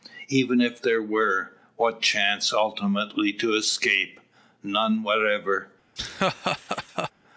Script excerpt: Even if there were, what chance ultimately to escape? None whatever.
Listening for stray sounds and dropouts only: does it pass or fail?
fail